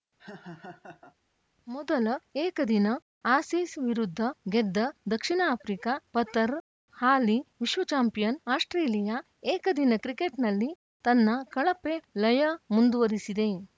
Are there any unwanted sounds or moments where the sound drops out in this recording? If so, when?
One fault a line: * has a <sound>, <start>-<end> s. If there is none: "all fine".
* has a laugh, 0.2-1.2 s